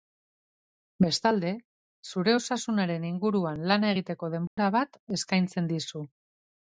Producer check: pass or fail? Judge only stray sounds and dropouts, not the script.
fail